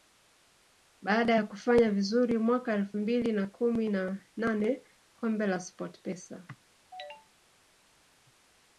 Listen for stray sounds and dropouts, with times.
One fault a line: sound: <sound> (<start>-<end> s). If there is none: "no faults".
no faults